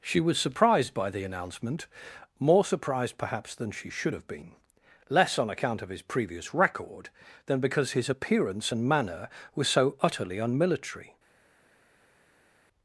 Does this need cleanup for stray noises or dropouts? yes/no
no